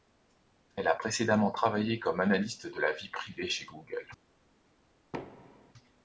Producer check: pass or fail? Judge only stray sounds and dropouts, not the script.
fail